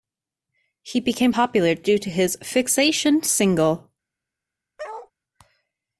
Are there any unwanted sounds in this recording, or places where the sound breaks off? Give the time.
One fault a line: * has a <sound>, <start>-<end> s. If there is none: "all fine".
* has a bark, 4.8-5.1 s